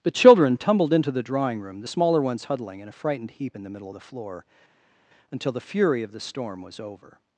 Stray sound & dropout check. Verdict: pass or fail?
pass